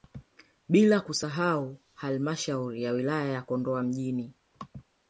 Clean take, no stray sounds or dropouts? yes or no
yes